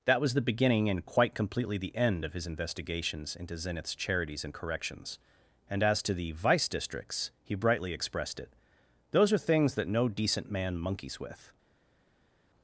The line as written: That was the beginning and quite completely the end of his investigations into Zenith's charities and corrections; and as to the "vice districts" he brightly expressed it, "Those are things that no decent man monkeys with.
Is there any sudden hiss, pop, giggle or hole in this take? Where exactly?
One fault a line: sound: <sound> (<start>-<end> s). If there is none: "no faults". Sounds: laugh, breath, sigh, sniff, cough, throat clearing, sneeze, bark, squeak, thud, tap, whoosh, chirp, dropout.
no faults